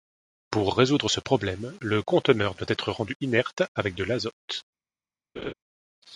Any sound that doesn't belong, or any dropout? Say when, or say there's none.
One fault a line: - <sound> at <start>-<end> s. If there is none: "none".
- laugh at 5.4-5.5 s